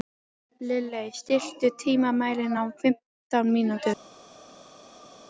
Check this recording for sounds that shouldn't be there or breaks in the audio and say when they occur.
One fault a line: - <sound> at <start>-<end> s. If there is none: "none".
none